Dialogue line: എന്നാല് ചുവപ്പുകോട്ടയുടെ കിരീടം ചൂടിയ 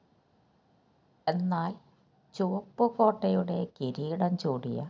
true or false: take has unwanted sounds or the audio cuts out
false